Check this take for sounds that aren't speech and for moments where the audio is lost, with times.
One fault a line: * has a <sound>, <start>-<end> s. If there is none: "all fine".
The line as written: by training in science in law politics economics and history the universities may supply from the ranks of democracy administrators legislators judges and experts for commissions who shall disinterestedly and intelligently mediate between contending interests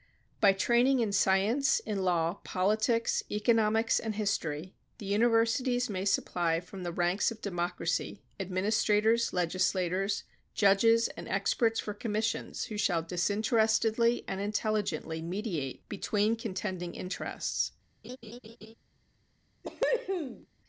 * has a laugh, 18.0-18.7 s
* has a cough, 19.6-20.5 s